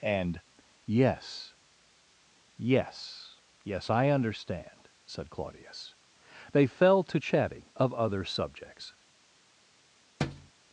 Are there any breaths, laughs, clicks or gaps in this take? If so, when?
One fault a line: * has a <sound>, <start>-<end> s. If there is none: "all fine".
* has a thud, 10.2-10.5 s